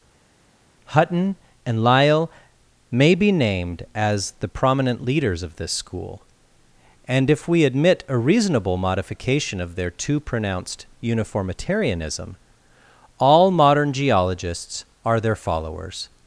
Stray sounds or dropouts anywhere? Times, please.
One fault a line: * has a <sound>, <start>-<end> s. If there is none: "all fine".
all fine